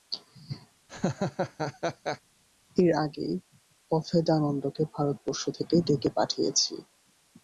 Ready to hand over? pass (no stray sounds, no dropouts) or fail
fail